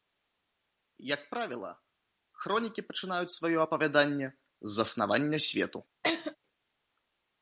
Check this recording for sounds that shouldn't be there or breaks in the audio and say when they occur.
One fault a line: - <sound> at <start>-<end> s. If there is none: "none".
- laugh at 6.0-6.4 s